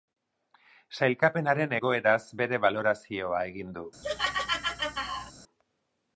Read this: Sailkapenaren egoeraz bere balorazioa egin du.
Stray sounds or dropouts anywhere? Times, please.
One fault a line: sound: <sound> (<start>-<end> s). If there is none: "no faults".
sound: laugh (4.0-5.3 s)